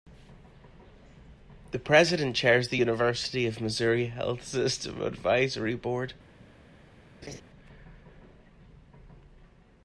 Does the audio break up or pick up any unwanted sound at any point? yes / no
yes